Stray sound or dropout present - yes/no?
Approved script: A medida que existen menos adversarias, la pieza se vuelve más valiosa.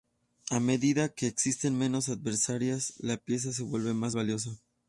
no